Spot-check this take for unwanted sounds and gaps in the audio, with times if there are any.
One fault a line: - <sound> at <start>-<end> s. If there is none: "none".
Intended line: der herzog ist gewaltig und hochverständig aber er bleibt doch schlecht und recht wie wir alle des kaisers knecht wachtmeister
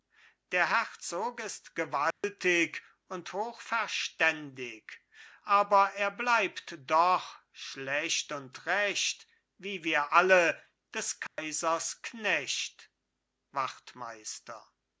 - dropout at 2.1-2.2 s
- dropout at 11.3-11.4 s